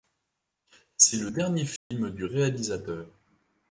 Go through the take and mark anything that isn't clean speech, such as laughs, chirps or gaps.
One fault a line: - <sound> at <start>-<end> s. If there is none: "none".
- dropout at 1.8-1.9 s